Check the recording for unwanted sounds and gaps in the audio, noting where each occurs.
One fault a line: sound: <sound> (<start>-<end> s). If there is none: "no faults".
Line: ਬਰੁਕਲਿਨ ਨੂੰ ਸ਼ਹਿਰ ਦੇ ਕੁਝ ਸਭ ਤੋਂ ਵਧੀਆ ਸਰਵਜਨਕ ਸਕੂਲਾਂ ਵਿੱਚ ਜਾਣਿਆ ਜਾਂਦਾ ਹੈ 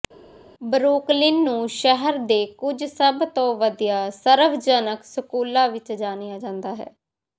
no faults